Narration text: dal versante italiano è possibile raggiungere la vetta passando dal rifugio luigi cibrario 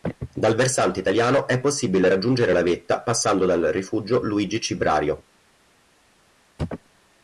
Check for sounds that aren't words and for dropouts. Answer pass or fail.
pass